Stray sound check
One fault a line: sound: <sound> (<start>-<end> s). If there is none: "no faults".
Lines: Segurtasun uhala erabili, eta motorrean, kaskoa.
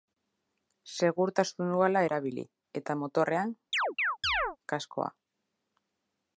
sound: chirp (3.7-4.6 s)